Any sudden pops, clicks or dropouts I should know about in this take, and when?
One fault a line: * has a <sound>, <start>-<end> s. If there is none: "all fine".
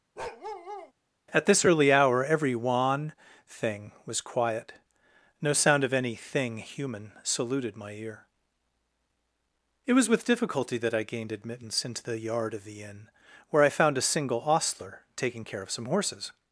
* has a bark, 0.2-0.9 s